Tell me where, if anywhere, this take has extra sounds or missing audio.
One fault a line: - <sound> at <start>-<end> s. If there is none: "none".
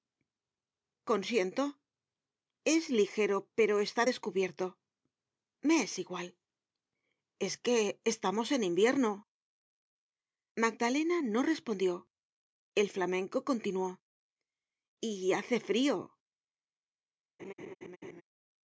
- laugh at 17.4-18.2 s